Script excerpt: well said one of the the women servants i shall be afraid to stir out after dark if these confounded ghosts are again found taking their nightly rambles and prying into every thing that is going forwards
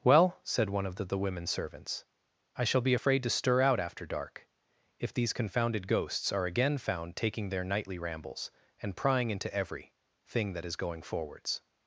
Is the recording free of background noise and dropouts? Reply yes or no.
yes